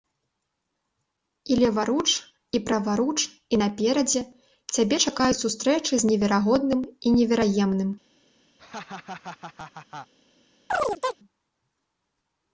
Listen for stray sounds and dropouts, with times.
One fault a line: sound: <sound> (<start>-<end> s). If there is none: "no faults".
sound: laugh (8.6-10.1 s)
sound: chirp (10.7-11.2 s)